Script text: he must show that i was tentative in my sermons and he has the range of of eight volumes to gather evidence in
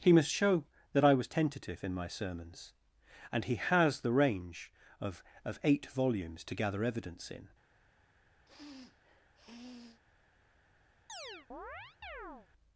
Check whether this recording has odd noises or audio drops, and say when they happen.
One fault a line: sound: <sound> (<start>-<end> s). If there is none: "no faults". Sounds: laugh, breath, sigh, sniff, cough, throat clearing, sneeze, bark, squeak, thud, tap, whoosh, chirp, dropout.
sound: sniff (8.5-10.0 s)
sound: chirp (11.1-12.5 s)